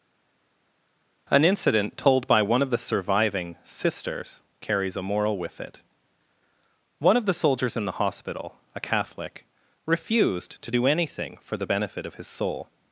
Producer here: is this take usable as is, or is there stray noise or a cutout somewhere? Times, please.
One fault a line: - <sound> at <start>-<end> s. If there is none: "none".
none